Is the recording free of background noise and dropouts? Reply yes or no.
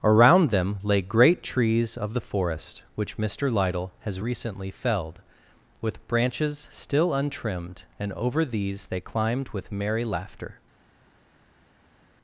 yes